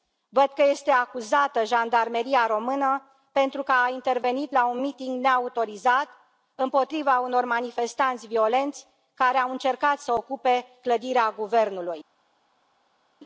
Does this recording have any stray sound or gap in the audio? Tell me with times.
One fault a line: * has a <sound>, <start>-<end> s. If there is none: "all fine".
all fine